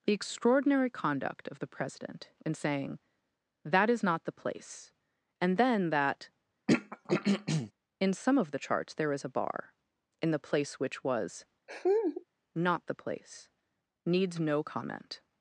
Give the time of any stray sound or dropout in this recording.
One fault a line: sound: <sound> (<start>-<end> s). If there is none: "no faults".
sound: throat clearing (6.7-7.7 s)
sound: laugh (11.7-12.2 s)